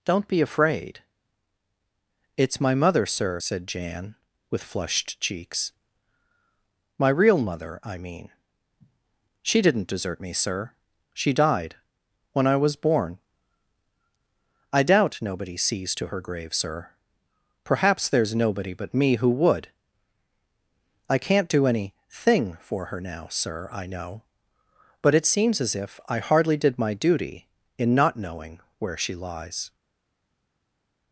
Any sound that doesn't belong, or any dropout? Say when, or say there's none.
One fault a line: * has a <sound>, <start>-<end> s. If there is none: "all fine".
all fine